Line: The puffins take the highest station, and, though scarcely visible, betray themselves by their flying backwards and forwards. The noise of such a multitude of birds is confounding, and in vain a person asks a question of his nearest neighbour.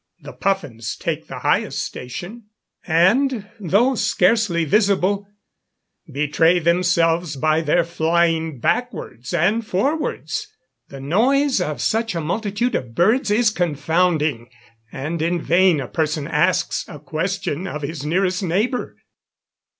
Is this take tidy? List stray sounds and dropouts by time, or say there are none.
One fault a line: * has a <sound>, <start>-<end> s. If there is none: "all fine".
all fine